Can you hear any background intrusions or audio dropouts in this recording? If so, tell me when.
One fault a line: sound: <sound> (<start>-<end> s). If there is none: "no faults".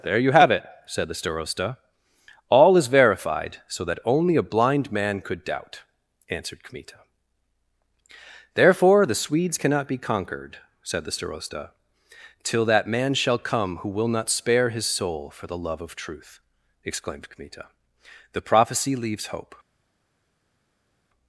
no faults